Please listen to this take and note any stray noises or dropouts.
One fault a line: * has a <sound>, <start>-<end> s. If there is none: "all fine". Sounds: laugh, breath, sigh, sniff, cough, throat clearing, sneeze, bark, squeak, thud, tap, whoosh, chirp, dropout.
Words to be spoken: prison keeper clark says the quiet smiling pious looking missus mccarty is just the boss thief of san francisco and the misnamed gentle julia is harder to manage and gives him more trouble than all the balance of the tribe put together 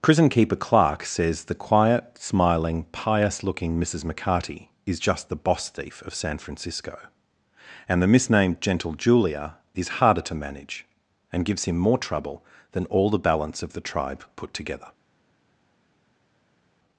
all fine